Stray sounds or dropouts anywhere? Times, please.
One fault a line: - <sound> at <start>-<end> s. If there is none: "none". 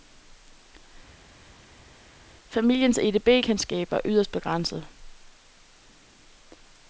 none